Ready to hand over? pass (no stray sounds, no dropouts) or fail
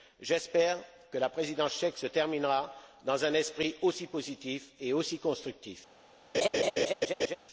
fail